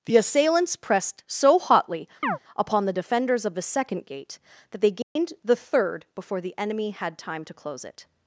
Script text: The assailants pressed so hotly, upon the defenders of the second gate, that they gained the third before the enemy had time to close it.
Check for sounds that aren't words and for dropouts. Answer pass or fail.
fail